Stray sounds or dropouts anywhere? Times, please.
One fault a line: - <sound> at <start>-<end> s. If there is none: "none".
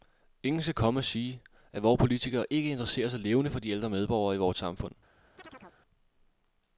- chirp at 5.4-5.8 s